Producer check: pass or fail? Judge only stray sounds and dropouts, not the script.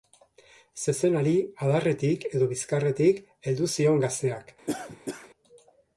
fail